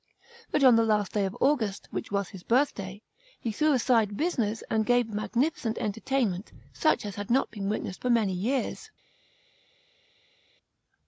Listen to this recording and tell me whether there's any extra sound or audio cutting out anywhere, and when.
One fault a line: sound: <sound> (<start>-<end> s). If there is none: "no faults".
no faults